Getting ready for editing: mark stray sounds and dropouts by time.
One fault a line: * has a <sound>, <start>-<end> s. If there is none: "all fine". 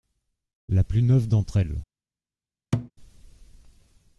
* has a thud, 2.7-2.9 s